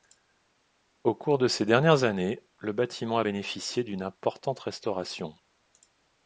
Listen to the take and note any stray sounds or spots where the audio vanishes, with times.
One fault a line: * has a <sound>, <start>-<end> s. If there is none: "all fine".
all fine